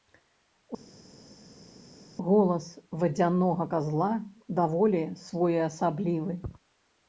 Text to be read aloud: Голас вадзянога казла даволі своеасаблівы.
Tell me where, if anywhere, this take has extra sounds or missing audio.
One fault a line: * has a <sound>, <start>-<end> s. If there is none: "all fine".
all fine